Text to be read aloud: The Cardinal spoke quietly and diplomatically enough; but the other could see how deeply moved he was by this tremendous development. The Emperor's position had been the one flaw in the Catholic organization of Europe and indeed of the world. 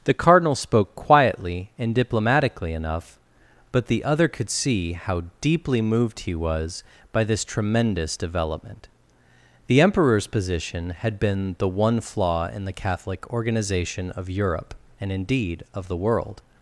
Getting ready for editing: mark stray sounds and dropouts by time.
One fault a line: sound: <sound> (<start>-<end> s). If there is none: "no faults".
no faults